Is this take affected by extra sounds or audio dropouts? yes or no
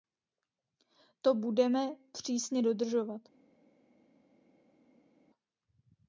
no